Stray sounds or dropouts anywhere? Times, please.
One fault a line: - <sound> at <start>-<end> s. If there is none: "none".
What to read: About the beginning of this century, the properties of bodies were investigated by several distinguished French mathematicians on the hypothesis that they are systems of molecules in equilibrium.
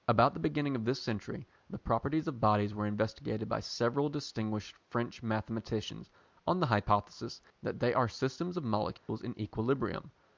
- dropout at 9.0-9.1 s